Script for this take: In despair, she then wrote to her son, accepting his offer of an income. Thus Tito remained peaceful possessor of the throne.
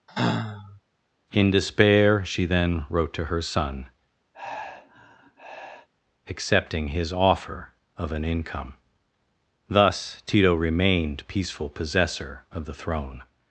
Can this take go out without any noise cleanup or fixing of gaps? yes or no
no